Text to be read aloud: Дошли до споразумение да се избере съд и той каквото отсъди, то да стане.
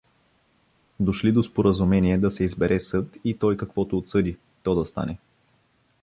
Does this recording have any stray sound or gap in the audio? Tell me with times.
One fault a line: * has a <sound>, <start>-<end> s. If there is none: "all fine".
all fine